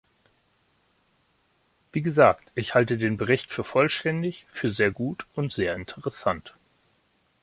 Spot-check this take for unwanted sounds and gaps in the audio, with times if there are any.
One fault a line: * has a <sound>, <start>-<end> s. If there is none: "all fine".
all fine